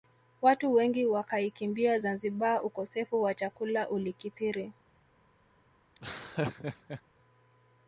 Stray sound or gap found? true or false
true